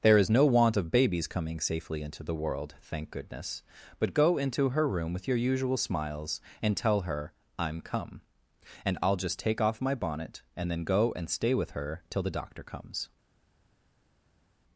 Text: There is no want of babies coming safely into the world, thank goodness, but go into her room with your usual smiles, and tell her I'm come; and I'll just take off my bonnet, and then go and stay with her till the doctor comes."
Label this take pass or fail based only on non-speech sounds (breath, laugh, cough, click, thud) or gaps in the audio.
pass